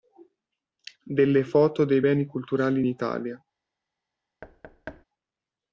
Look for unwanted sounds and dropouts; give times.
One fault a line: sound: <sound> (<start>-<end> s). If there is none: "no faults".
sound: thud (4.4-5.0 s)